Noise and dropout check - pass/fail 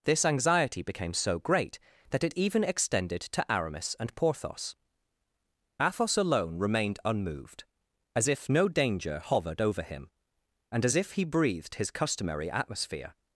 pass